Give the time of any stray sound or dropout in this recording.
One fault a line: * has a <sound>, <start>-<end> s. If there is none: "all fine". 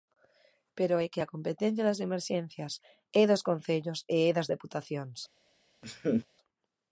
* has a laugh, 5.8-6.3 s